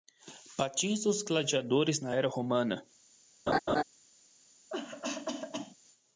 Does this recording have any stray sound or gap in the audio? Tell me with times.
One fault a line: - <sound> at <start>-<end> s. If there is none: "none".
- laugh at 3.5-3.8 s
- cough at 4.7-5.8 s